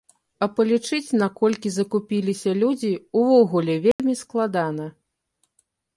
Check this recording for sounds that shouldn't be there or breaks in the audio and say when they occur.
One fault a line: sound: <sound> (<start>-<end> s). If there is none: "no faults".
sound: dropout (3.9-4.0 s)